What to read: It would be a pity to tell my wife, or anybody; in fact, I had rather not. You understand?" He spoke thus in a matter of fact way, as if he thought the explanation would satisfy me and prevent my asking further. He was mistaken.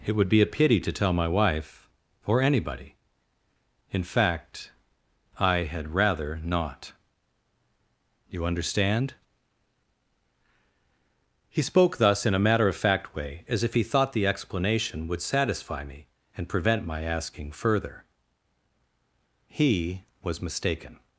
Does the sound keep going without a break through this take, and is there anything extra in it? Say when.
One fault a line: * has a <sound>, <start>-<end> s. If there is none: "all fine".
all fine